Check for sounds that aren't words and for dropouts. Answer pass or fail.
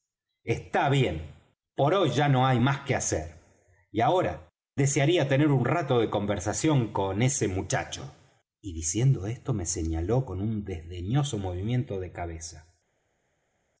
pass